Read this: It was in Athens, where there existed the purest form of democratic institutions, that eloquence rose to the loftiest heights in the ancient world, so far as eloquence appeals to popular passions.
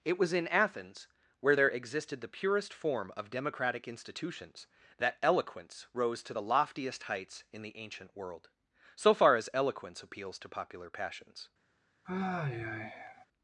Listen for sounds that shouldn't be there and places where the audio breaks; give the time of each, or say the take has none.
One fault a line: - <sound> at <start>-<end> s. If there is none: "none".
- sigh at 12.0-13.3 s